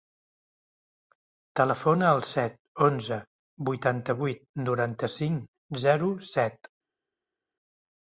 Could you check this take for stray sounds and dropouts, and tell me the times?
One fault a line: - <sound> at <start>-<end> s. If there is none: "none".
none